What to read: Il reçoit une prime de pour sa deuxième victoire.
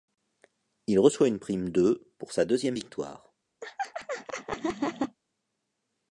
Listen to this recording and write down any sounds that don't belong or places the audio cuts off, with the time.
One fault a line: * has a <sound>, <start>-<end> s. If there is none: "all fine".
* has a laugh, 3.6-5.2 s